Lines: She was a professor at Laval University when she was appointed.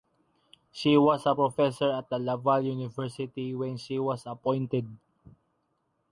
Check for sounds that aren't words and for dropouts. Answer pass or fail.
pass